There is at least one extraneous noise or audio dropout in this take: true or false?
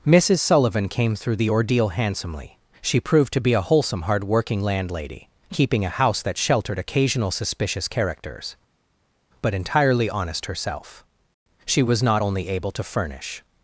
false